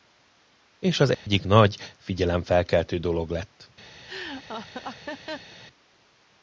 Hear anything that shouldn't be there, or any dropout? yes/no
yes